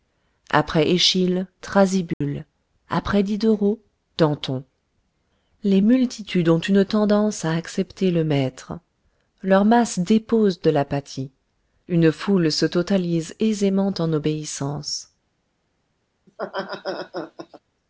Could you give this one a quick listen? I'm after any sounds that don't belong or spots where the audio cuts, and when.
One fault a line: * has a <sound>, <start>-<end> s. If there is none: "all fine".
* has a dropout, 2.1-2.2 s
* has a laugh, 16.3-17.6 s